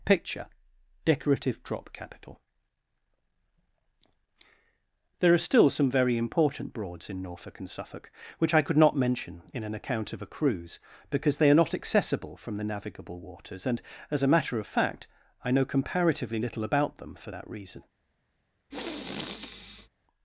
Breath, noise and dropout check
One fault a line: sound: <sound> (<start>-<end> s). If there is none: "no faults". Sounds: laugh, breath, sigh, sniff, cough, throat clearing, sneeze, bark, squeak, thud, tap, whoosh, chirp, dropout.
sound: sniff (18.7-19.9 s)